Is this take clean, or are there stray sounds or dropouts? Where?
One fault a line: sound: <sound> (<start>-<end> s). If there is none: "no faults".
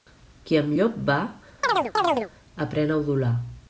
sound: chirp (1.6-2.3 s)